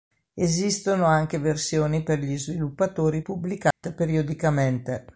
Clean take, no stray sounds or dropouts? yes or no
no